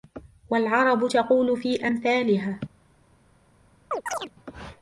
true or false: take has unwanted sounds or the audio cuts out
true